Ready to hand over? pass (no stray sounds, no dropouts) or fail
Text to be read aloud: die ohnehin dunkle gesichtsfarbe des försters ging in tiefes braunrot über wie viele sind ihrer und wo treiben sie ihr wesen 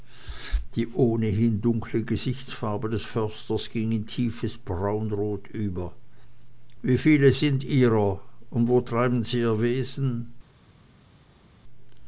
pass